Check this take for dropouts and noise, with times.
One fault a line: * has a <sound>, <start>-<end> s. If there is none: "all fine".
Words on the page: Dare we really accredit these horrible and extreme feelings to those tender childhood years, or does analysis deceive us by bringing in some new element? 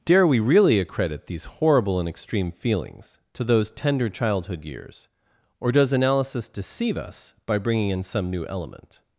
all fine